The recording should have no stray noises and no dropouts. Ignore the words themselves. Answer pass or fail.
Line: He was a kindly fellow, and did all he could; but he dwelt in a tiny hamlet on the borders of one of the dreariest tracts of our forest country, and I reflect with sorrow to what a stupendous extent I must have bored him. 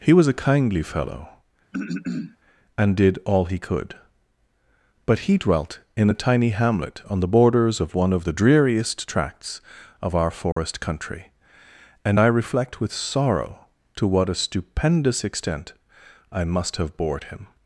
fail